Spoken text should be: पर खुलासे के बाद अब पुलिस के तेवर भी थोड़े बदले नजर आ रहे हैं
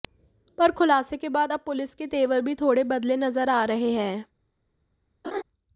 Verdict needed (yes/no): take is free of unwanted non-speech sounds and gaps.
no